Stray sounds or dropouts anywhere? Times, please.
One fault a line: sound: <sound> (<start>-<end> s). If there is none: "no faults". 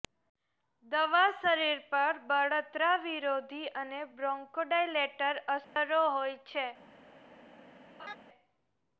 sound: dropout (5.6-5.8 s)
sound: laugh (8.0-8.2 s)